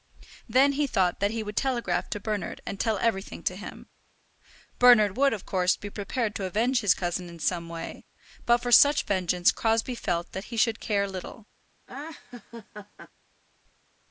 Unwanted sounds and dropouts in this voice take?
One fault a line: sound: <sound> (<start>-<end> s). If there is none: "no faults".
sound: laugh (11.9-13.1 s)